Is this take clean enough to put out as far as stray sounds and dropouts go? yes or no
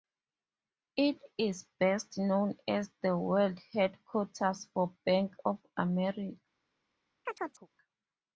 no